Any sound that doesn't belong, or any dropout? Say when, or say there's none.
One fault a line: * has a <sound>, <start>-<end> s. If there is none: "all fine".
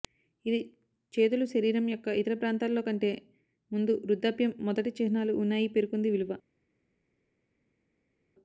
all fine